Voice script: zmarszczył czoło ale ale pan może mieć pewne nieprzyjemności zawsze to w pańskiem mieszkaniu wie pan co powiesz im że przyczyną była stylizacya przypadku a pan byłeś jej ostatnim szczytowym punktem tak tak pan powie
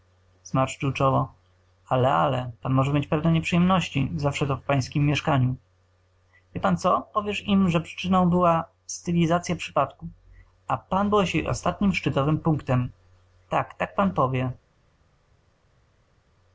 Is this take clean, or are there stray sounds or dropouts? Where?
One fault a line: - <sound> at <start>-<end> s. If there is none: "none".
none